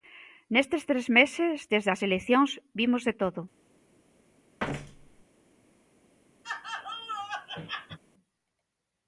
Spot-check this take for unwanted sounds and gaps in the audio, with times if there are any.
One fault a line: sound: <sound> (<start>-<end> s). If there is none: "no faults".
sound: thud (4.6-5.2 s)
sound: laugh (6.4-8.0 s)